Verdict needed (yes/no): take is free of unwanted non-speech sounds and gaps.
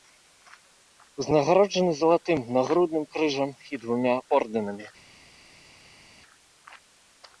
yes